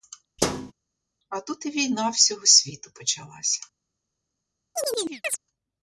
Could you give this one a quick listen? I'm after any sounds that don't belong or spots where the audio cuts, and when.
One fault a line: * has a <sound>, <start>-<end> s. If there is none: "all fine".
* has a thud, 0.4-0.7 s
* has a chirp, 4.8-5.4 s